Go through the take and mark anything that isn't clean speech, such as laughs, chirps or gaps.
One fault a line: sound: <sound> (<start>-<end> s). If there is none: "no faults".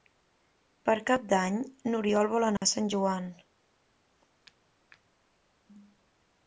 sound: dropout (2.6-2.6 s)